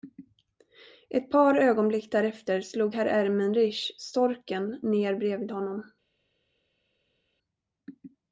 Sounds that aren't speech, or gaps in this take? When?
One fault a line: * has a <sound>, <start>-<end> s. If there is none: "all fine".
all fine